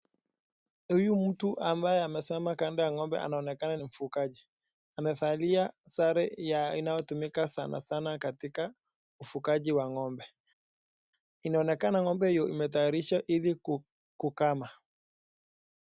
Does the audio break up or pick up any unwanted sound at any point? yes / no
no